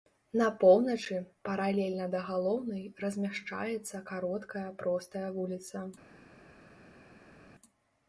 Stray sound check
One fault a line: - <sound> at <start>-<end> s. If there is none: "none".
none